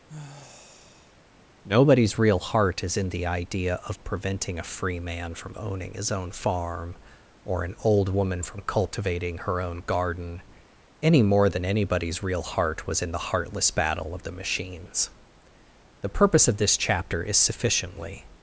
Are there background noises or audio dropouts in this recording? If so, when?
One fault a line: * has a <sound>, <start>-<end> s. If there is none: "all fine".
* has a sigh, 0.1-1.2 s